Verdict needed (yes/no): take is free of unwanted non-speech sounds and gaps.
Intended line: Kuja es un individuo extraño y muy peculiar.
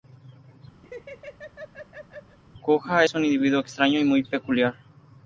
no